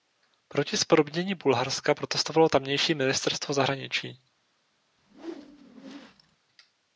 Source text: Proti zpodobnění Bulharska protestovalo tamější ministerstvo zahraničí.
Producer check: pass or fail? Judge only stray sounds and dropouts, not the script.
fail